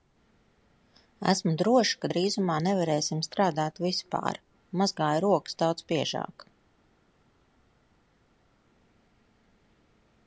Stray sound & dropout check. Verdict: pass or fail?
pass